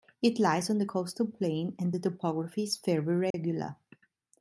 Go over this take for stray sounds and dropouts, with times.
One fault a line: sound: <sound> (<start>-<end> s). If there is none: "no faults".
sound: dropout (3.3-3.3 s)